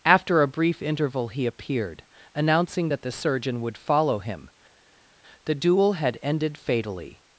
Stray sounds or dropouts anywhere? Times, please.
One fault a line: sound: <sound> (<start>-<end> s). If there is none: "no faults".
no faults